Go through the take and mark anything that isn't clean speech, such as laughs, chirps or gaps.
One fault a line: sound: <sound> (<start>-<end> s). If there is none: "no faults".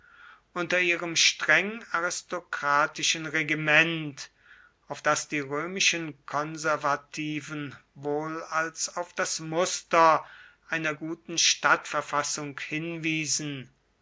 no faults